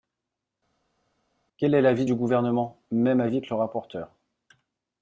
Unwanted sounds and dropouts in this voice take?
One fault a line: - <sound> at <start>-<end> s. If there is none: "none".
none